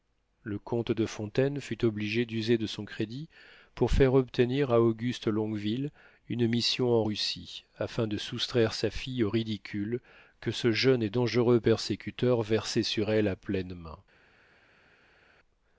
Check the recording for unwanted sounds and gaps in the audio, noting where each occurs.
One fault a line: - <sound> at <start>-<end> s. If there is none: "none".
none